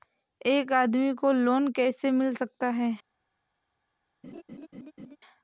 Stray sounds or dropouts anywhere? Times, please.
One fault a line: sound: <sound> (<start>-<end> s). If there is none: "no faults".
sound: laugh (4.2-5.2 s)